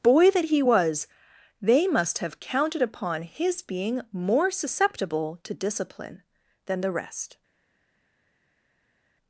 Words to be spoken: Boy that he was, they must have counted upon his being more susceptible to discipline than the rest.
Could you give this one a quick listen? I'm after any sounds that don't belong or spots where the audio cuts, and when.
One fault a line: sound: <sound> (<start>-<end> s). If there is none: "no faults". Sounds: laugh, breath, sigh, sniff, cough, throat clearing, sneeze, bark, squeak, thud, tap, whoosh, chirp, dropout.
no faults